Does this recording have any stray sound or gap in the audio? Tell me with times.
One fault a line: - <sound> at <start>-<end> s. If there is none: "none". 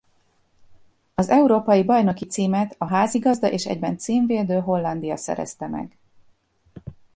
none